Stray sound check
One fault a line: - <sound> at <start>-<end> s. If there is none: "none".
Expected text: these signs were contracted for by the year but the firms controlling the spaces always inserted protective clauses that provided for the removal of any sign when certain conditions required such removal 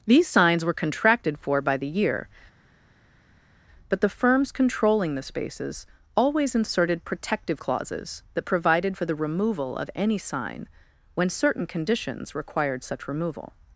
none